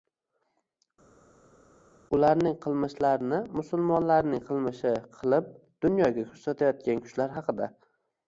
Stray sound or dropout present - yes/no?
no